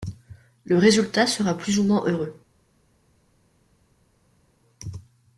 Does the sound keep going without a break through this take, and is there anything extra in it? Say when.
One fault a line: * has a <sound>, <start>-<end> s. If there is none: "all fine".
all fine